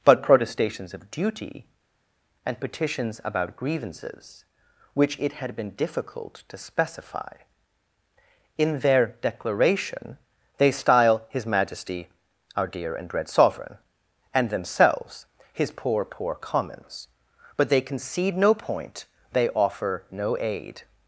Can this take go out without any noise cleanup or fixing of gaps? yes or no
yes